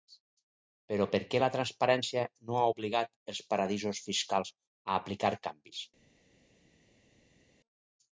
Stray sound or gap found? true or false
false